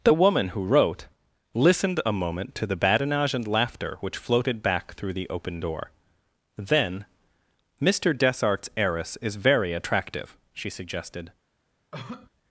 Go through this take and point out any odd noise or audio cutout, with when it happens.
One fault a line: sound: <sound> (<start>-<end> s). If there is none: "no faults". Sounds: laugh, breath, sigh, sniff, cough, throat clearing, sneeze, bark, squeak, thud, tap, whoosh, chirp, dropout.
sound: cough (11.9-12.3 s)